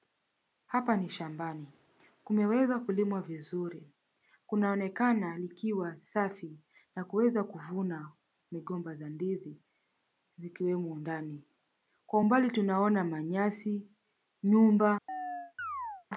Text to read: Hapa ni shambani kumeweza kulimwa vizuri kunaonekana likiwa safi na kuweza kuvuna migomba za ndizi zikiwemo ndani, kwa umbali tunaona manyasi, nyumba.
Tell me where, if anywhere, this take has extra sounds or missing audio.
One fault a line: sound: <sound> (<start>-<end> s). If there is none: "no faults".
sound: chirp (15.1-16.1 s)